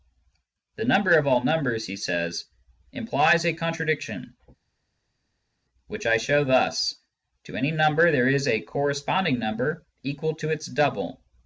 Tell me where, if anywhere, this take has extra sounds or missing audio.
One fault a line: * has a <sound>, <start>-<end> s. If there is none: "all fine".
all fine